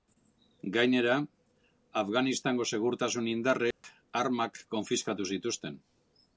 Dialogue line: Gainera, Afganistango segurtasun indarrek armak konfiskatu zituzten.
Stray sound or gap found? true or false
true